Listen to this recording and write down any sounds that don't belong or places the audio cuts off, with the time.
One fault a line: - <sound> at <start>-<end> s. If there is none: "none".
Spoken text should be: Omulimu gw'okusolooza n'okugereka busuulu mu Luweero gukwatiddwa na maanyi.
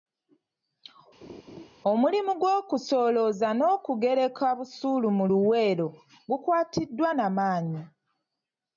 - laugh at 1.2-1.7 s